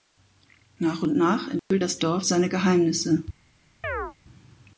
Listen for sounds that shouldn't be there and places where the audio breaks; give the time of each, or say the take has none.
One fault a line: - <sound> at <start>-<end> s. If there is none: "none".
- dropout at 1.6-1.7 s
- chirp at 3.8-4.1 s